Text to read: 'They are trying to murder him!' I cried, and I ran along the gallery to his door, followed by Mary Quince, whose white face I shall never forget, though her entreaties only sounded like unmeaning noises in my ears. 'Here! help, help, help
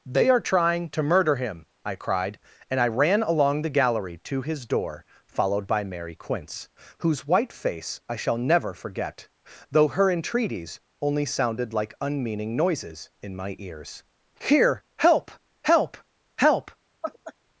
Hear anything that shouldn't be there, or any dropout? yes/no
yes